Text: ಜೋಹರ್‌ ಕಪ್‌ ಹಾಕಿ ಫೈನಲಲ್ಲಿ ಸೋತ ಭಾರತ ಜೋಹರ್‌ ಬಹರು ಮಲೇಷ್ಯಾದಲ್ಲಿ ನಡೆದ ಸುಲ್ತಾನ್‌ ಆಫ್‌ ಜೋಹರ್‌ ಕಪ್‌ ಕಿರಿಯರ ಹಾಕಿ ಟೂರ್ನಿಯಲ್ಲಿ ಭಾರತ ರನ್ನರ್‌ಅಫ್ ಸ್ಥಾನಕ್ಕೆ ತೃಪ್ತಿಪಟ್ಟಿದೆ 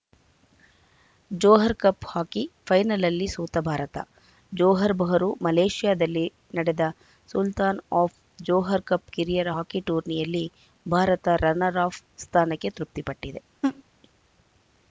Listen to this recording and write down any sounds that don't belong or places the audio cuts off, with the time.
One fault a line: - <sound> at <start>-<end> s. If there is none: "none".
- laugh at 13.6-13.8 s